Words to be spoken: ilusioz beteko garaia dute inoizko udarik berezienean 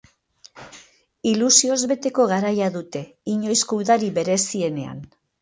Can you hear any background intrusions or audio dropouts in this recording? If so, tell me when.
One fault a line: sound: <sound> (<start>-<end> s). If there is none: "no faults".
no faults